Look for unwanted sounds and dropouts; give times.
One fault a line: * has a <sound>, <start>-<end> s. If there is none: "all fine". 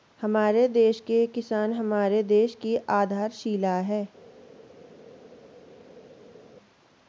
all fine